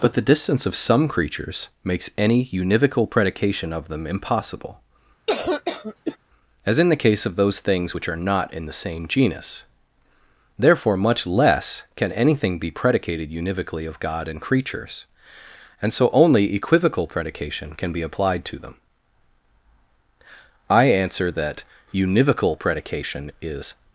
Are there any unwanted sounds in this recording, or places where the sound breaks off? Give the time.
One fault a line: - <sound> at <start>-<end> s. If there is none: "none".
- cough at 5.3-6.2 s